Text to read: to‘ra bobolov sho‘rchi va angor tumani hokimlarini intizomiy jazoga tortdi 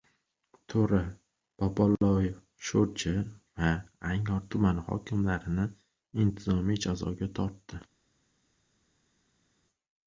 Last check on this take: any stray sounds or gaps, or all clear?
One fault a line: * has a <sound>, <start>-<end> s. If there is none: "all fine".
all fine